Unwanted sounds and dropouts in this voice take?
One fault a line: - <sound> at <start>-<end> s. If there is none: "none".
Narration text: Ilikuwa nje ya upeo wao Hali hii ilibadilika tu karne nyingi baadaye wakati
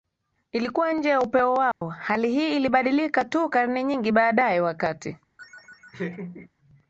- dropout at 1.7-1.8 s
- laugh at 5.4-6.5 s